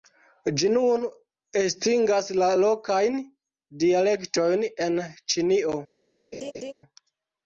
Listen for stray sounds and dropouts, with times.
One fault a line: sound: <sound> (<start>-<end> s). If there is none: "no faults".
sound: laugh (6.3-6.7 s)